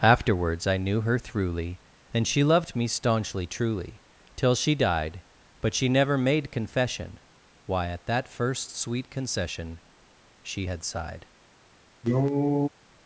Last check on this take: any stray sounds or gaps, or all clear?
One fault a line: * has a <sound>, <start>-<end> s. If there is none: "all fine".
* has a cough, 12.0-12.7 s